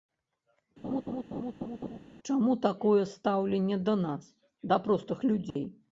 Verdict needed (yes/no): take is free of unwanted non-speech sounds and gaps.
no